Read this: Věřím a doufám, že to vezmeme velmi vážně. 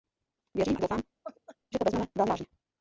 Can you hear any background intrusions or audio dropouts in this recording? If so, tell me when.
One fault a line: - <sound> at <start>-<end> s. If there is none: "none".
- laugh at 1.2-1.6 s